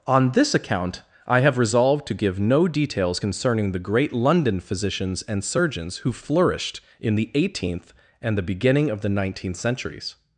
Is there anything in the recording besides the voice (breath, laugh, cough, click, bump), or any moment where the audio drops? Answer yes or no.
no